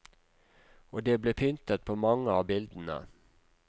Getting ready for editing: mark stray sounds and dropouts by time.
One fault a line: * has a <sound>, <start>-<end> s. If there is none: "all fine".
all fine